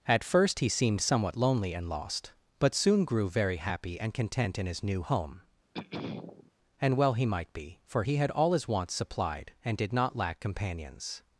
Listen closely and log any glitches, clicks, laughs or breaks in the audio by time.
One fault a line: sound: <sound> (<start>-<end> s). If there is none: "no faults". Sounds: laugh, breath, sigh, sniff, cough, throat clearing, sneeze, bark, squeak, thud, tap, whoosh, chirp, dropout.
sound: throat clearing (5.7-6.5 s)